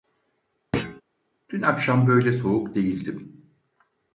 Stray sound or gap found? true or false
true